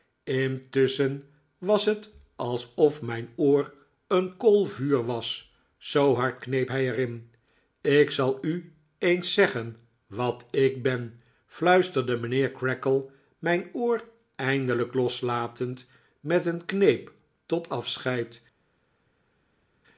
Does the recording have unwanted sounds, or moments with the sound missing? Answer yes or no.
no